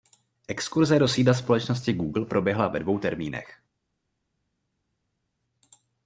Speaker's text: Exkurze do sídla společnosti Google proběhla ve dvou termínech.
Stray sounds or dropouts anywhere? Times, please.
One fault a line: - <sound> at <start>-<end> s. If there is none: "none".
none